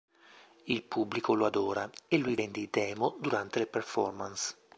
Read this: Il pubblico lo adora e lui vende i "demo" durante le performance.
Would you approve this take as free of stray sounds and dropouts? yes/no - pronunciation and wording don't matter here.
yes